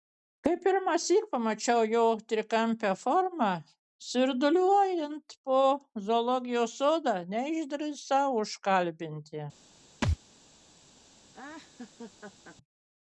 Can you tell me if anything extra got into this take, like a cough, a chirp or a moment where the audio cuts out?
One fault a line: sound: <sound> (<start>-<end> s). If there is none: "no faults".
sound: thud (10.0-10.2 s)
sound: laugh (11.3-12.6 s)